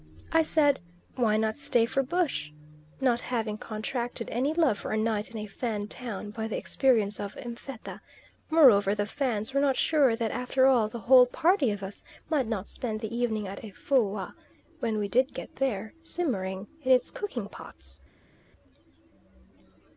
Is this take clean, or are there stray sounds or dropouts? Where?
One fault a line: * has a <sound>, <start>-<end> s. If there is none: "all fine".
all fine